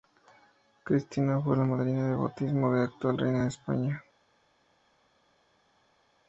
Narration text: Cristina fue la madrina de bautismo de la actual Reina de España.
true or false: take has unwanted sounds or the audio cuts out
false